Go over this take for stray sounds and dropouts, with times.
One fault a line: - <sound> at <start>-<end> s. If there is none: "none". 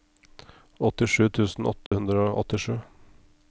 - dropout at 1.9-1.9 s